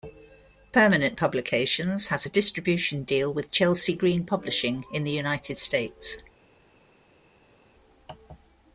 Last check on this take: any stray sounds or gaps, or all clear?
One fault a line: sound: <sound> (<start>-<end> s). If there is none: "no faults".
no faults